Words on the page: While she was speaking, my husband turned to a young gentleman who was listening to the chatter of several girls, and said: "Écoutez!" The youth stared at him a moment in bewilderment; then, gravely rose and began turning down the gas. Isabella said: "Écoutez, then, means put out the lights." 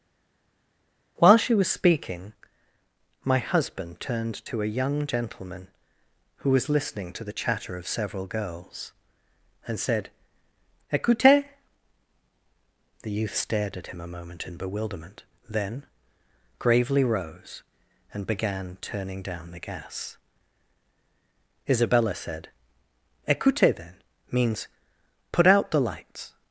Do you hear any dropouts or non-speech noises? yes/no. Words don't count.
no